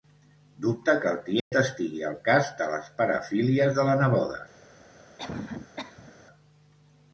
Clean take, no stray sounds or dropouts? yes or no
no